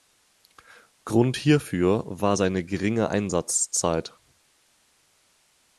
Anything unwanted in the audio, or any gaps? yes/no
no